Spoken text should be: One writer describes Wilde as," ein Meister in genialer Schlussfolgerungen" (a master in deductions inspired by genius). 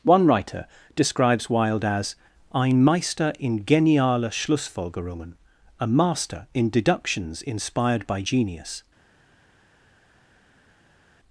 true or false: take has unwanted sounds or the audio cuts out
false